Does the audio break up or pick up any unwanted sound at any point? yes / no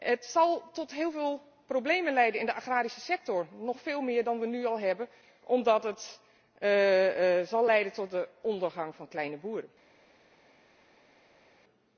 no